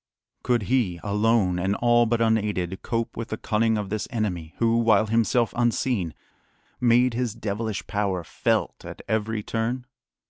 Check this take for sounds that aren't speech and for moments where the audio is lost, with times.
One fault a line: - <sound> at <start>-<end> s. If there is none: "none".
none